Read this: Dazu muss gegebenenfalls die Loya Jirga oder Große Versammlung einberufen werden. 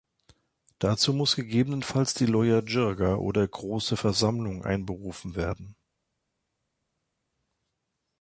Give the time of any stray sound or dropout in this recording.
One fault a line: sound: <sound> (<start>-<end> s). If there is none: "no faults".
no faults